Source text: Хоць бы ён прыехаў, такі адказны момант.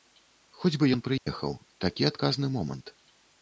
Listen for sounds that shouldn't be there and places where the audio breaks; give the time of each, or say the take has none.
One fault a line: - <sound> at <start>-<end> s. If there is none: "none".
- dropout at 1.2-1.3 s